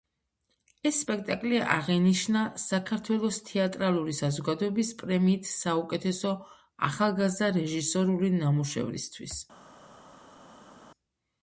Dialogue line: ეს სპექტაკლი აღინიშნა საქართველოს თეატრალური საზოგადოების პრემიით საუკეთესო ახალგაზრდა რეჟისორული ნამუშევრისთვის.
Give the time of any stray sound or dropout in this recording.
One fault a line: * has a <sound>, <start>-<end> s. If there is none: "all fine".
all fine